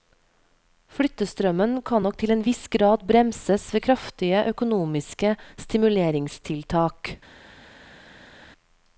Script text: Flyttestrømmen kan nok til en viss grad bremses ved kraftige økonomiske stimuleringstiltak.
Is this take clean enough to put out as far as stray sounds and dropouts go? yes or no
yes